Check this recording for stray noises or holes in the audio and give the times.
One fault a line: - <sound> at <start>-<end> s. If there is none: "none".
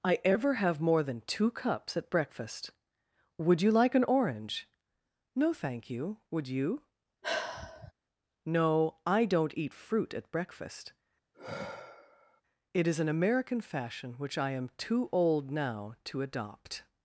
- sigh at 7.2-7.9 s
- sigh at 11.3-12.4 s